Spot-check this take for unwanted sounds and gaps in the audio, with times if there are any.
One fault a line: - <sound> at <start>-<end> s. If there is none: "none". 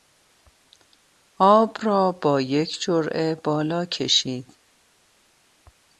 none